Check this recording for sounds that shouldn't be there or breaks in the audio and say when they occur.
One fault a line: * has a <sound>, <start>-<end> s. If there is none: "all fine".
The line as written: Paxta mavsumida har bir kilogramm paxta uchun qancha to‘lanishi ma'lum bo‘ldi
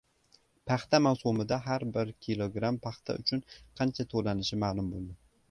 all fine